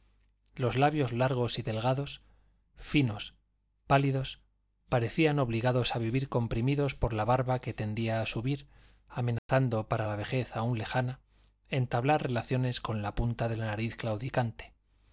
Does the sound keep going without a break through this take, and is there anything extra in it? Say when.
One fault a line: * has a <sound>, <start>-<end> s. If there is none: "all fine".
* has a dropout, 9.4-9.5 s